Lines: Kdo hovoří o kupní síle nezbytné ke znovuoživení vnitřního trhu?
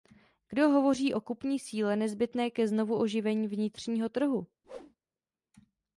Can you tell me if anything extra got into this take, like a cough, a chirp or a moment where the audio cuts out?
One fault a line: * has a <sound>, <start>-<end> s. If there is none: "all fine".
* has a whoosh, 4.6-5.0 s